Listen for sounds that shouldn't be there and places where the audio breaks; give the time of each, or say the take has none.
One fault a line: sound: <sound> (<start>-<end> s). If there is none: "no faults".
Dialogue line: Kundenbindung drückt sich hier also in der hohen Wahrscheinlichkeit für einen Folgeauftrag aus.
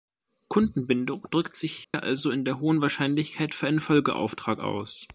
sound: dropout (1.8-1.9 s)